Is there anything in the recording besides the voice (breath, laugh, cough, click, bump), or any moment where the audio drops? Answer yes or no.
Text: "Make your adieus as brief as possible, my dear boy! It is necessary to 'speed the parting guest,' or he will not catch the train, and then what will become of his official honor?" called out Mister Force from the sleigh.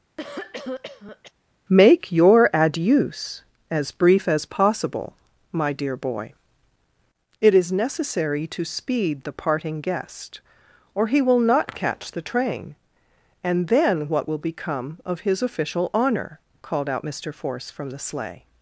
yes